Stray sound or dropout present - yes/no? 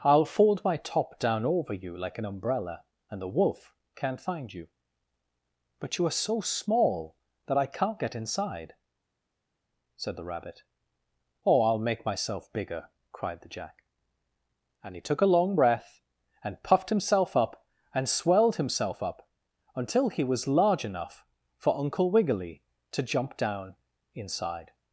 no